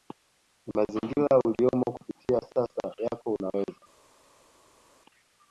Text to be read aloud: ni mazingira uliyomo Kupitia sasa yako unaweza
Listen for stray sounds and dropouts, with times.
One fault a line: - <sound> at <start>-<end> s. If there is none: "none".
none